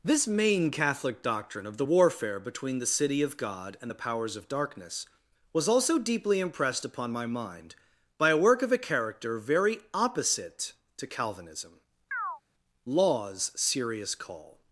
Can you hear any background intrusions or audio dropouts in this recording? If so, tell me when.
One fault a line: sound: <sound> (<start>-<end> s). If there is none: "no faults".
sound: chirp (12.1-12.4 s)